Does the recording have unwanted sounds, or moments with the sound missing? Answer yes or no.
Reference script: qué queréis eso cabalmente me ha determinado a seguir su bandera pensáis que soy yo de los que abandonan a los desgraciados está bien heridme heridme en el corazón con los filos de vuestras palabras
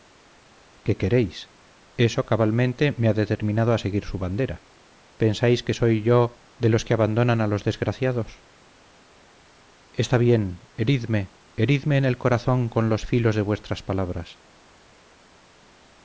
no